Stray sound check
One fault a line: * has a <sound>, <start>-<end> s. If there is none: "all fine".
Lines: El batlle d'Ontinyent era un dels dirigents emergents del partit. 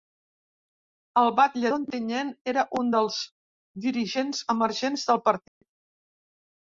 * has a dropout, 5.5-5.6 s